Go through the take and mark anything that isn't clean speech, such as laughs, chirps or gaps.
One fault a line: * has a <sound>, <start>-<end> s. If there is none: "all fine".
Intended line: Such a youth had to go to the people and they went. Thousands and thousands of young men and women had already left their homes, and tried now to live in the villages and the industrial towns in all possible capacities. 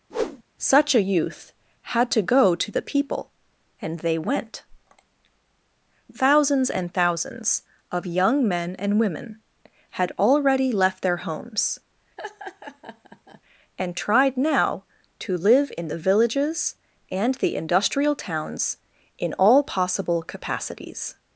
* has a whoosh, 0.1-0.4 s
* has a laugh, 12.2-13.4 s